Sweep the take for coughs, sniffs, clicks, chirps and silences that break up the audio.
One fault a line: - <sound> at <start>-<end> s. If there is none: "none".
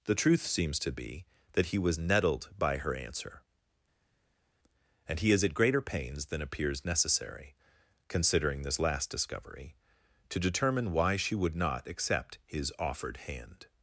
none